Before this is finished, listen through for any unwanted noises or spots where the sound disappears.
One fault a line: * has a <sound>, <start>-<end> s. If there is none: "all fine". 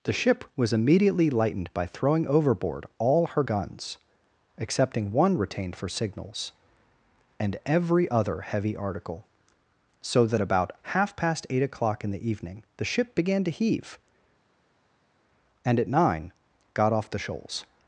all fine